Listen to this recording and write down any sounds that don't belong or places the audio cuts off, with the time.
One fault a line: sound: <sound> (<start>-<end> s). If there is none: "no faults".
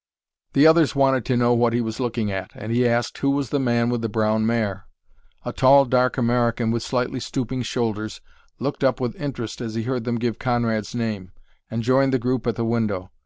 no faults